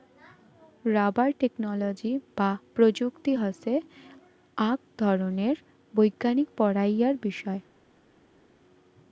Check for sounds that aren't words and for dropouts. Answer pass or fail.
pass